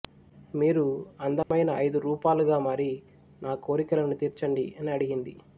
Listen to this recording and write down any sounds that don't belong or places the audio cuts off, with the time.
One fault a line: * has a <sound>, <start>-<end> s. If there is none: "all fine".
* has a dropout, 1.4-1.5 s